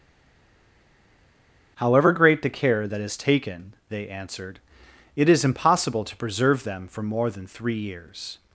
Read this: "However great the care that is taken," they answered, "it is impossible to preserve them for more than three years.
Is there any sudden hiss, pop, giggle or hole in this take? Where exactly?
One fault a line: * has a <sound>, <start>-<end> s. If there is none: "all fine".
all fine